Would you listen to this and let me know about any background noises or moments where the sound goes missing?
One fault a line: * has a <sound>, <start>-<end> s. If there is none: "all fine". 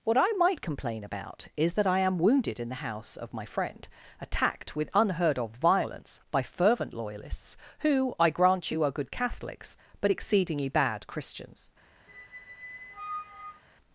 * has a squeak, 12.1-13.6 s